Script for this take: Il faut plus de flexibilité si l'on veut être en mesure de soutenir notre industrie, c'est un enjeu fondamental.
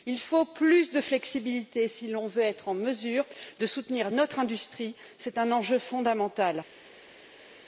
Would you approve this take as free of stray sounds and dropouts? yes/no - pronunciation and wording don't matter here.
yes